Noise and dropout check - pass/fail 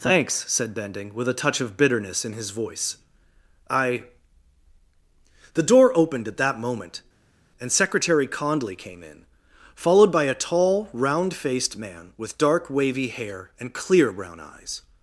pass